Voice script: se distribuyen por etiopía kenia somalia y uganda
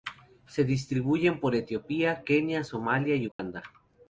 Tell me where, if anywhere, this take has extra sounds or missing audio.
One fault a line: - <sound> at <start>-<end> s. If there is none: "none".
- dropout at 3.3-3.4 s